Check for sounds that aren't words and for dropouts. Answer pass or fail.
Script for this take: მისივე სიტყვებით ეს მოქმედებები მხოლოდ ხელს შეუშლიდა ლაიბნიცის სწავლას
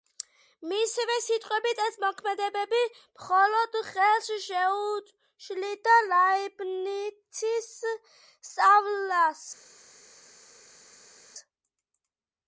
pass